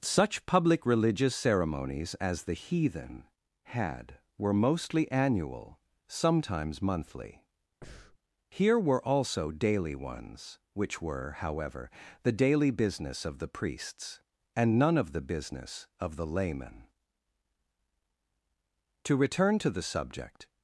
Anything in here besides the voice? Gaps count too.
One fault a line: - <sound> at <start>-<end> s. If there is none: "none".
- breath at 7.8-8.2 s